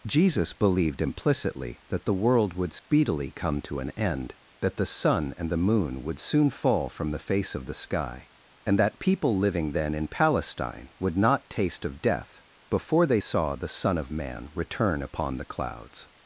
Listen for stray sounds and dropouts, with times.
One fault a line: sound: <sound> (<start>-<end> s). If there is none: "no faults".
sound: dropout (2.8-2.9 s)